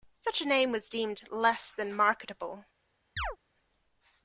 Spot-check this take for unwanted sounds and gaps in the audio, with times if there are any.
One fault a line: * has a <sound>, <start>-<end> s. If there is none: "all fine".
* has a chirp, 3.2-3.4 s